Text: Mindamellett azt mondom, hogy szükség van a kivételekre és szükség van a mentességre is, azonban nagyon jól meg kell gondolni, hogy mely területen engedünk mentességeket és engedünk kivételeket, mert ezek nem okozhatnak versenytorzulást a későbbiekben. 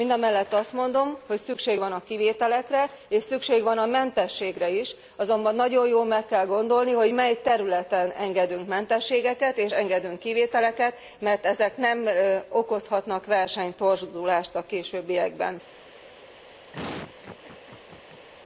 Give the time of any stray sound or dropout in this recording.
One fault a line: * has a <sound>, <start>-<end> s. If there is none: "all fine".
* has a laugh, 16.7-18.3 s